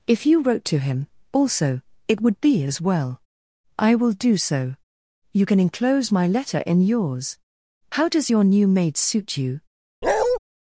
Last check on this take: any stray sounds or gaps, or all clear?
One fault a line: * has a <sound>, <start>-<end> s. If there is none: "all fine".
* has a bark, 10.0-10.4 s